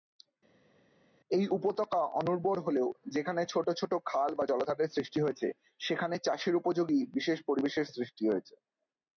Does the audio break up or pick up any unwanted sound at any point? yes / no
no